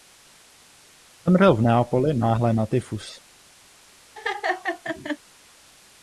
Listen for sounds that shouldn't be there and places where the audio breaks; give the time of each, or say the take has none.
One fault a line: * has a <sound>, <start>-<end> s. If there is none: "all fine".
* has a laugh, 4.1-5.2 s